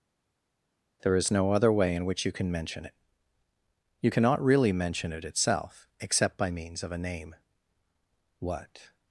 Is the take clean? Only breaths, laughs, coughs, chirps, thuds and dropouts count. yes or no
yes